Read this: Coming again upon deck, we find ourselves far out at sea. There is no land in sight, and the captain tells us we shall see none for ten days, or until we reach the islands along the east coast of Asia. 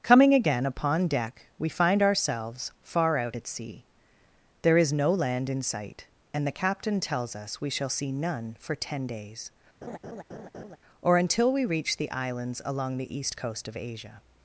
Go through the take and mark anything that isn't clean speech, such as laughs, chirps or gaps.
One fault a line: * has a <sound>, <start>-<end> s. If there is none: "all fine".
* has a laugh, 9.8-10.8 s